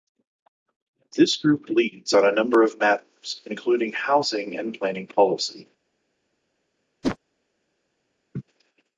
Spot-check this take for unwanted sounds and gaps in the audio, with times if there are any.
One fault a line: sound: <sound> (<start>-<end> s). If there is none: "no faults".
sound: whoosh (7.0-7.2 s)
sound: laugh (8.3-8.4 s)